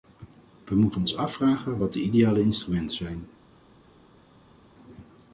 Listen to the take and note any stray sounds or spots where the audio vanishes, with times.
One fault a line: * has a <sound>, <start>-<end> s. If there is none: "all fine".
all fine